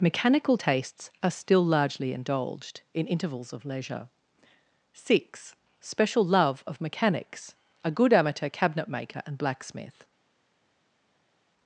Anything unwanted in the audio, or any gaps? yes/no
no